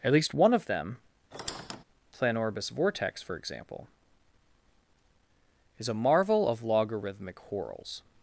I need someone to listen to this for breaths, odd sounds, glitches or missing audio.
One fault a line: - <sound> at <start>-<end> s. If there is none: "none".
- squeak at 1.3-1.8 s